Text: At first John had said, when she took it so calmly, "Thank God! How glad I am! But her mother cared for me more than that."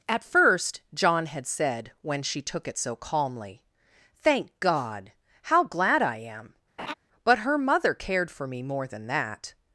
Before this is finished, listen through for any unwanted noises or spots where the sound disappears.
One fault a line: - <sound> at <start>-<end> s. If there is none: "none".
- laugh at 6.8-6.9 s